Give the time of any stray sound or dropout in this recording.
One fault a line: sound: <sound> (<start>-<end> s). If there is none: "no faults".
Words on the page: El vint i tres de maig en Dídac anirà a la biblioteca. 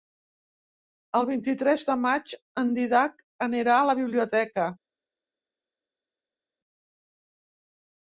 no faults